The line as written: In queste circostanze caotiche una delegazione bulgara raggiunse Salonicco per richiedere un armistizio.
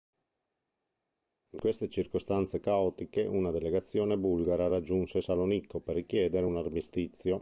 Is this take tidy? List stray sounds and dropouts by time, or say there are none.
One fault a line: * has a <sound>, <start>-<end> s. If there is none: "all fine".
all fine